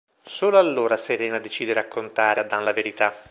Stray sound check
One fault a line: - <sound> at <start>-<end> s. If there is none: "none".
none